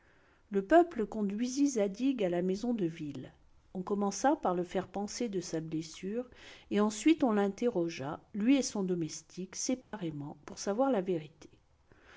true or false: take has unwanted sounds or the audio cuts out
true